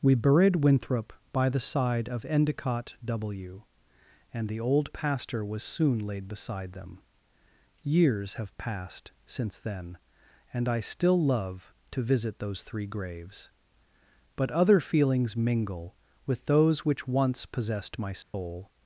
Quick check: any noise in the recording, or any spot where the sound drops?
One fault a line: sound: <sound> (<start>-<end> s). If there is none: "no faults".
sound: dropout (18.2-18.3 s)